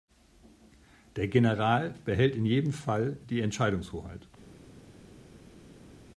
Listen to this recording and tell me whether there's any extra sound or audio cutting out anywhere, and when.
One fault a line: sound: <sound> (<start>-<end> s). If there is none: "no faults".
no faults